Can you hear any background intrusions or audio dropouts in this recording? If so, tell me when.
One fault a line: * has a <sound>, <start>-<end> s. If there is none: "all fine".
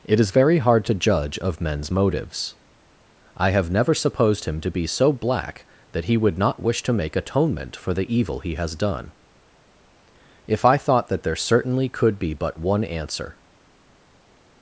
all fine